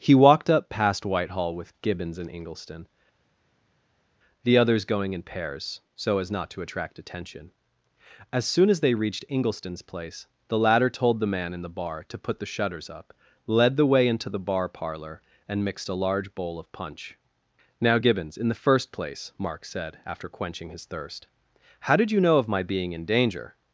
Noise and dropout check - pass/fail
pass